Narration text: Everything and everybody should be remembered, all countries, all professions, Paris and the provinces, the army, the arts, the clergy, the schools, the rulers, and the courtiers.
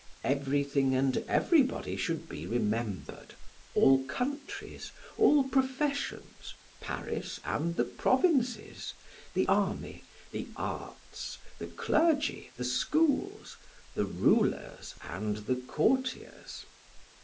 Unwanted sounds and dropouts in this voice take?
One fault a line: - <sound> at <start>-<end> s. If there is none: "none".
none